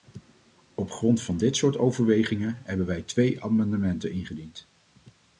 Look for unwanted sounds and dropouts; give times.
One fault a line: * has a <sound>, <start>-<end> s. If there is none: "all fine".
all fine